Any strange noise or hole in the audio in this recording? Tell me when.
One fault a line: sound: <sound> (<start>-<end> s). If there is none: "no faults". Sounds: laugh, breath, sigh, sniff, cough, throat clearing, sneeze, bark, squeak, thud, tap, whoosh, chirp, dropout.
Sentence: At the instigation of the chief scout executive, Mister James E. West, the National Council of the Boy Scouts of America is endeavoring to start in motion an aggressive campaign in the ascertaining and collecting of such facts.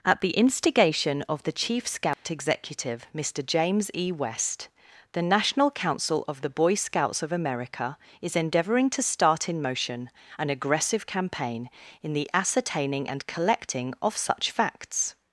sound: dropout (2.1-2.2 s)